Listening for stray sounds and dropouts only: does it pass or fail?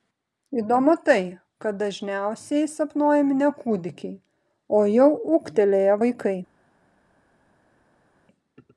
pass